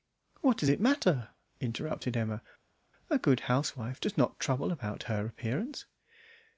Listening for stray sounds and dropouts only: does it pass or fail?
pass